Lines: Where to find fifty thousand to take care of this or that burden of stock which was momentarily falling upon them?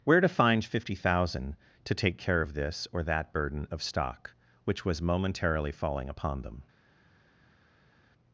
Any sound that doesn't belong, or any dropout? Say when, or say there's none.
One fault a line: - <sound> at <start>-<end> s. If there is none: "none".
none